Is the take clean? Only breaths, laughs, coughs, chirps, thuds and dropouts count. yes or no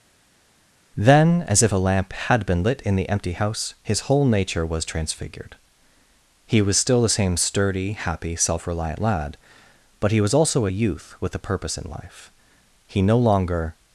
yes